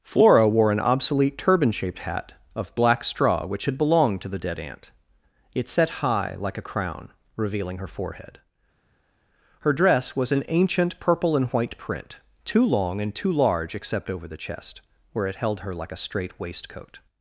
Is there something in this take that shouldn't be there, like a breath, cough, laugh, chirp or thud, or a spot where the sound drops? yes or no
no